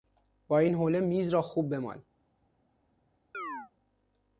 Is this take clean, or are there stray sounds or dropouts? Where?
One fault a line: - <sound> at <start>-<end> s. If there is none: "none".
- chirp at 3.3-3.7 s